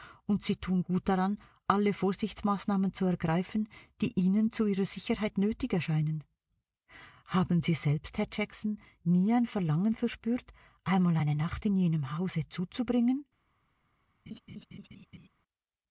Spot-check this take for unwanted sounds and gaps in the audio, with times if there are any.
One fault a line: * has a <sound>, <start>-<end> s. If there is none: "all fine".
* has a laugh, 14.3-15.3 s